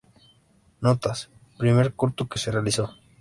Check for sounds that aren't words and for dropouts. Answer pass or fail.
pass